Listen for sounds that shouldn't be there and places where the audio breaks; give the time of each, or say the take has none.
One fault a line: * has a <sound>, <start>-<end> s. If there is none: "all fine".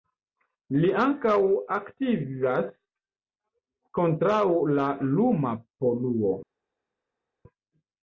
all fine